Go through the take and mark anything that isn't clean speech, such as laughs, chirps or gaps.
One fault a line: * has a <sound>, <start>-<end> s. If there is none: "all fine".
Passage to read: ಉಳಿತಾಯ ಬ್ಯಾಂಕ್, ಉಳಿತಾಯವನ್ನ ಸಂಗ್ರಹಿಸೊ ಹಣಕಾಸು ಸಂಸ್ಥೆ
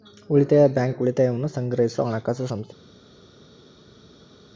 all fine